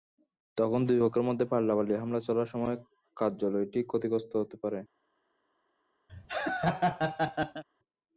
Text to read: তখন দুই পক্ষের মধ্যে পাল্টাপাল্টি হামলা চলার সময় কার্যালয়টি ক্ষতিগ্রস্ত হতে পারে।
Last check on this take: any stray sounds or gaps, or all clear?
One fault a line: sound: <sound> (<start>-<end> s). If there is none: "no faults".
sound: laugh (6.1-7.6 s)